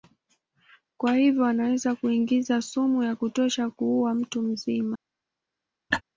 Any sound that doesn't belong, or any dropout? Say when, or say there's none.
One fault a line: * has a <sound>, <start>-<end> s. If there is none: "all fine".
* has a laugh, 5.9-6.0 s